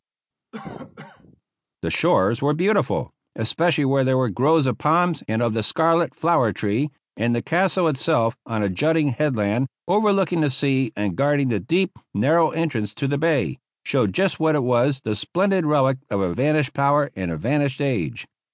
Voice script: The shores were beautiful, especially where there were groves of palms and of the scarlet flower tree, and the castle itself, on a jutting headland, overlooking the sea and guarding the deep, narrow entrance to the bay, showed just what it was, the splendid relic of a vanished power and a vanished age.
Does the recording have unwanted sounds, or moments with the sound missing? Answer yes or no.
yes